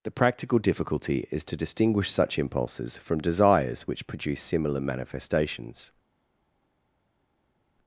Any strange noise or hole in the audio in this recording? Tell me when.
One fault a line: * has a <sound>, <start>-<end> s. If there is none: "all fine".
all fine